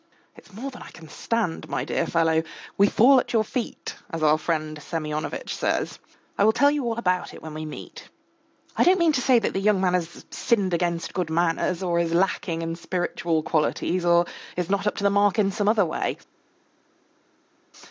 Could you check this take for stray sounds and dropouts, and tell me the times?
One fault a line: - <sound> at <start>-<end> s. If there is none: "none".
none